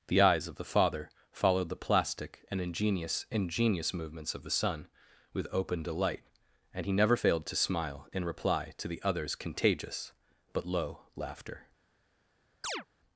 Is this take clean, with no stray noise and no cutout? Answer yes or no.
no